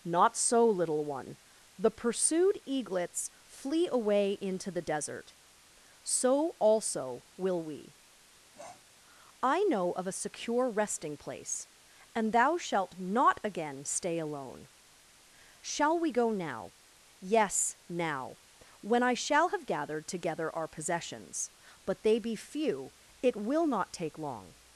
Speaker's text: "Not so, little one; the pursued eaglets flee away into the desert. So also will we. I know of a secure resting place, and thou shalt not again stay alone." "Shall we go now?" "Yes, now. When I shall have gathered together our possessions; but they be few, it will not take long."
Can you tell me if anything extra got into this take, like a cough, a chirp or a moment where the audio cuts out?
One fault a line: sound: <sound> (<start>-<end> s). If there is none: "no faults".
sound: sniff (8.5-8.9 s)